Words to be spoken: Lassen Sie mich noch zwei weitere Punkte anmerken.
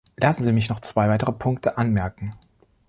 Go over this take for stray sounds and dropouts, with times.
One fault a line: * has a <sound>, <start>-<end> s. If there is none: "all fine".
all fine